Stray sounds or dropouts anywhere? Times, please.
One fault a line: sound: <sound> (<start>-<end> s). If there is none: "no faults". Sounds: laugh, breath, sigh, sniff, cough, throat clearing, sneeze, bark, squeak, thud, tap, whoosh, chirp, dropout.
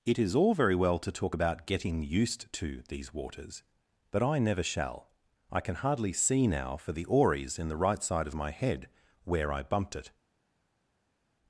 no faults